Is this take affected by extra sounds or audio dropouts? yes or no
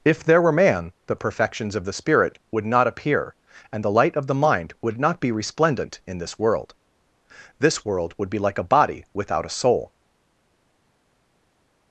no